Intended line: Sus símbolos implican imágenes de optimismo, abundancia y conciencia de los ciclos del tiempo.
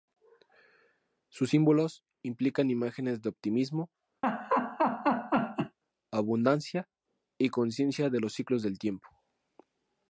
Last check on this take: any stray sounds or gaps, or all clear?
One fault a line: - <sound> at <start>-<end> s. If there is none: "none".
- laugh at 4.2-5.8 s